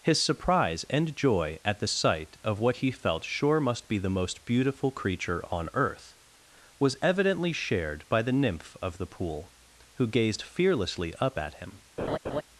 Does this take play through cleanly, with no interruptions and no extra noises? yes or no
no